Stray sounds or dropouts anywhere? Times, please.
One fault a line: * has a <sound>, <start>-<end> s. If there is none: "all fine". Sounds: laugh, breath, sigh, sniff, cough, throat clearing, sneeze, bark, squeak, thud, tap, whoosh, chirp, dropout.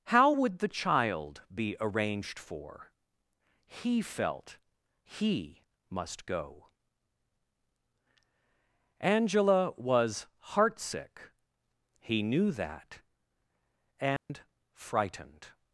* has a dropout, 14.2-14.3 s